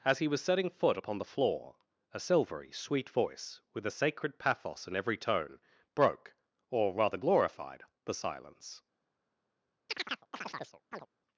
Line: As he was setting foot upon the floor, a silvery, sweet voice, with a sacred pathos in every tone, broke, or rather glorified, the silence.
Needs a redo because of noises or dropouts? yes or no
yes